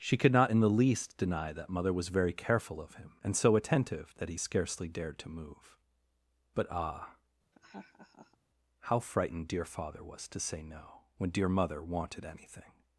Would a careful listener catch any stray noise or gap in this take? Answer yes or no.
yes